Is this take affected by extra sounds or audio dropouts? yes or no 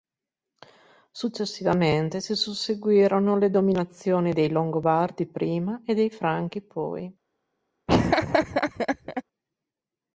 yes